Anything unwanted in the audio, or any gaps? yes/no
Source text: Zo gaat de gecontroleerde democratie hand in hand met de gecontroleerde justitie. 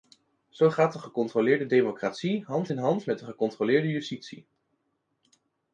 no